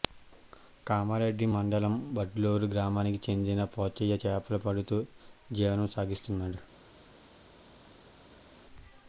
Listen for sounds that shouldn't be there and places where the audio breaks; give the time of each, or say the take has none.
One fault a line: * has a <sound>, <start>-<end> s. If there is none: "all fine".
all fine